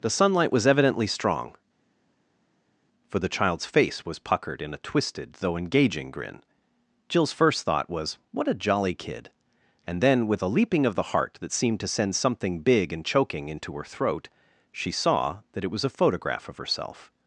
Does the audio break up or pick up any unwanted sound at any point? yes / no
no